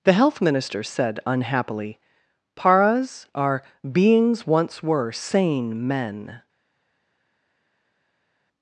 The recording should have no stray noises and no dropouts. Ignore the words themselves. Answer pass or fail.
pass